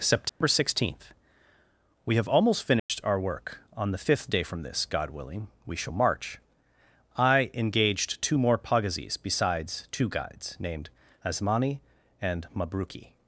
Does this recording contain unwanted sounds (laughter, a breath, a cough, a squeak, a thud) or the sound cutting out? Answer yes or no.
yes